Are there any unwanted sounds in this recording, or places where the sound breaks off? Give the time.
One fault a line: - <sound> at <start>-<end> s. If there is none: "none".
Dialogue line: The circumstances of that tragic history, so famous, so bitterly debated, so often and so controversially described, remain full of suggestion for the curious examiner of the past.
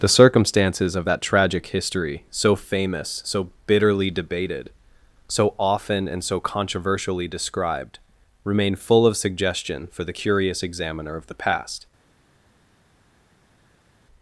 none